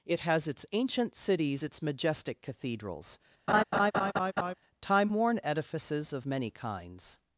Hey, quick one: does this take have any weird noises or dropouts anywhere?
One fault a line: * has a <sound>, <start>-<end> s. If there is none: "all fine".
* has a laugh, 3.5-4.5 s